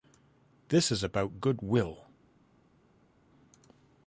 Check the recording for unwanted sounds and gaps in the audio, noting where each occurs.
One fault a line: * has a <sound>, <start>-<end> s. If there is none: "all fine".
all fine